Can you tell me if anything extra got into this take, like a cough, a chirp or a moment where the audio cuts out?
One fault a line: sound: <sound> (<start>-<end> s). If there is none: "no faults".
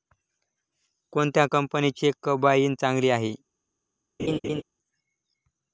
sound: laugh (4.2-4.6 s)